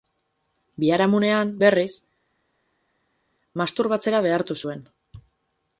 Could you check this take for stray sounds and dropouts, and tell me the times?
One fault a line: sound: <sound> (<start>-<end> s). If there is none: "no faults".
no faults